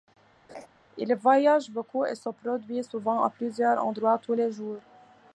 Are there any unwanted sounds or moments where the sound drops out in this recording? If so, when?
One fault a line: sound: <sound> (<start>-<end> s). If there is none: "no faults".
sound: laugh (0.5-0.7 s)